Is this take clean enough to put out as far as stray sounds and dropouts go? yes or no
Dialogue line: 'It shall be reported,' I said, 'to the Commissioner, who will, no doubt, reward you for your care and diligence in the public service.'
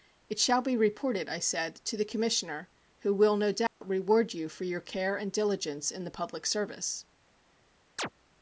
no